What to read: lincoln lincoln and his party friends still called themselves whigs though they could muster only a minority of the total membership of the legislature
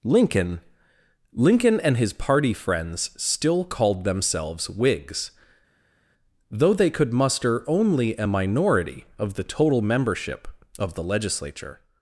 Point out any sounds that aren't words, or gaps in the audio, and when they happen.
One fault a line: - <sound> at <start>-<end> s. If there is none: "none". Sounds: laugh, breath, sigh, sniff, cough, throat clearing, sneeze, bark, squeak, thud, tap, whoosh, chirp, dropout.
none